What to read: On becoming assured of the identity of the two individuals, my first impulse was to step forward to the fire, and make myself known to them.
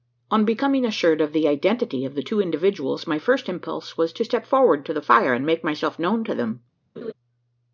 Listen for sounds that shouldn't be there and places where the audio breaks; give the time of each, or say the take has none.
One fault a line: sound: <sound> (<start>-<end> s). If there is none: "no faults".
sound: laugh (7.0-7.1 s)